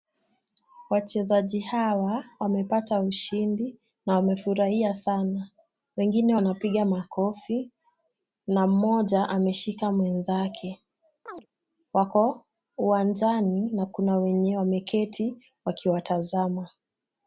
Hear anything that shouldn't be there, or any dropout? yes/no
yes